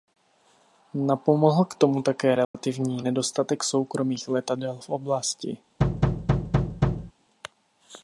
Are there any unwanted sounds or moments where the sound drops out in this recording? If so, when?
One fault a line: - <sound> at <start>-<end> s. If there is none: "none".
- dropout at 2.4-2.5 s
- thud at 5.8-7.1 s